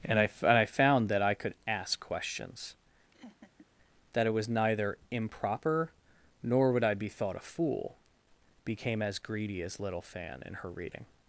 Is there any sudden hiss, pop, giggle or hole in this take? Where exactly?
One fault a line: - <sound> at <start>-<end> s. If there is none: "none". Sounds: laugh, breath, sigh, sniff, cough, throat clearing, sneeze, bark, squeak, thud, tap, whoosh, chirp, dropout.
- laugh at 3.1-3.7 s